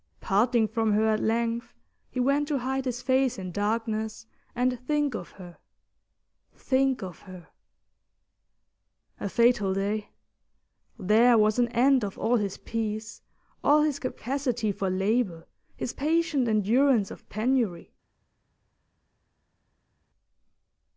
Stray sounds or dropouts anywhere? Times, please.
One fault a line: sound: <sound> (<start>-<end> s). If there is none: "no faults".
no faults